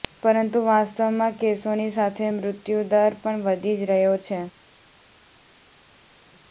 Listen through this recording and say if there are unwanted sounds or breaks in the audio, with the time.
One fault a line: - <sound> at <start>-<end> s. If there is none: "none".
none